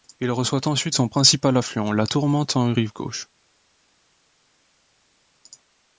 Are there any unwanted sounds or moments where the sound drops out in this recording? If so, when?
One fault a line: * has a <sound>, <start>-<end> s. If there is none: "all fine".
all fine